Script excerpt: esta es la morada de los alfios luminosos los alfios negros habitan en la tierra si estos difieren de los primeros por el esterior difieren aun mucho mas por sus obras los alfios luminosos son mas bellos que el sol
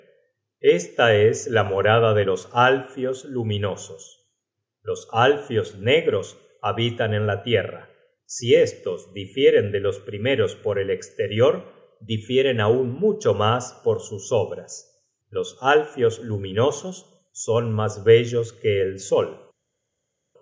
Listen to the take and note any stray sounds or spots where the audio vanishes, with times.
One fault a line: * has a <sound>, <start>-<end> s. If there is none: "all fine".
all fine